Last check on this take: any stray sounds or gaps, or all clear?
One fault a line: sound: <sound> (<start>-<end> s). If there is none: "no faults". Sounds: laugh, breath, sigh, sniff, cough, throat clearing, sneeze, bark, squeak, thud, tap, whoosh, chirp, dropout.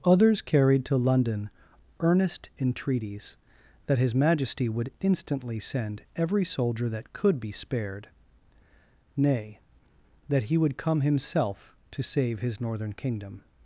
no faults